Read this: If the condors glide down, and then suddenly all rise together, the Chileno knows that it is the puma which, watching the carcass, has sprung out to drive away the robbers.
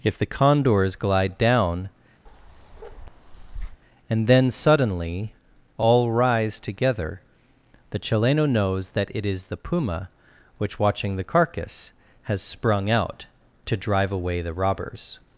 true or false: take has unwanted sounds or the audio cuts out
true